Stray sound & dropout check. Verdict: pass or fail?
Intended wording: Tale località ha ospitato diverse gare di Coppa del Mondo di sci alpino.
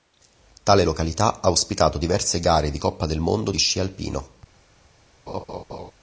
fail